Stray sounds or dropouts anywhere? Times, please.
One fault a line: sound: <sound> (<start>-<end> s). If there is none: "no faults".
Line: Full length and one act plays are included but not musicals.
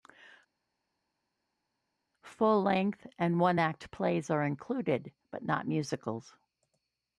no faults